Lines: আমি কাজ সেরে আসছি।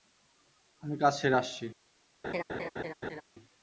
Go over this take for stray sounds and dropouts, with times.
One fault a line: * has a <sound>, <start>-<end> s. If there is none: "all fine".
* has a laugh, 2.2-3.2 s